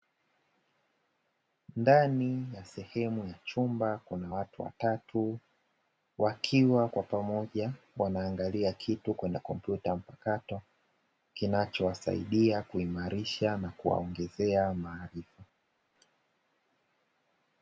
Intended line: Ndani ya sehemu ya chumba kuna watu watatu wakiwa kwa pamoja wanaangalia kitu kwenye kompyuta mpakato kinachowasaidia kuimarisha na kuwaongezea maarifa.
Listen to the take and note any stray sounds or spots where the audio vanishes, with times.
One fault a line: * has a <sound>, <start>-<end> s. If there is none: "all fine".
all fine